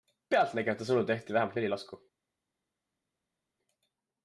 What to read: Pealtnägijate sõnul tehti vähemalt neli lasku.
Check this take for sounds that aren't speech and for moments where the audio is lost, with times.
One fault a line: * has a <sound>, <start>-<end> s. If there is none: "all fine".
all fine